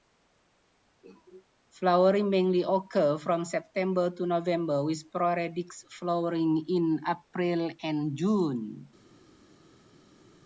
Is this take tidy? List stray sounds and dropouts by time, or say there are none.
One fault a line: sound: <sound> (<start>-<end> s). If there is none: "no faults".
no faults